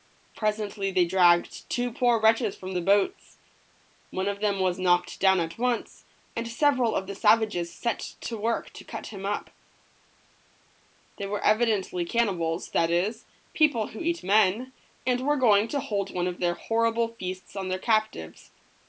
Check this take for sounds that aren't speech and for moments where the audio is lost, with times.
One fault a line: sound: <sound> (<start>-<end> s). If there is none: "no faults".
no faults